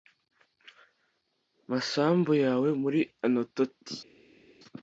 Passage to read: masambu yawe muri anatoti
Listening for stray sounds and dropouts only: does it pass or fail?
pass